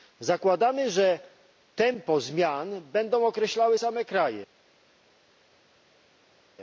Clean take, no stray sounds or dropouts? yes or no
yes